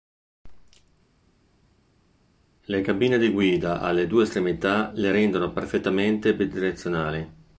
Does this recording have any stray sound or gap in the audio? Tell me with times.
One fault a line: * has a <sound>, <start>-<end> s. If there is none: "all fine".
all fine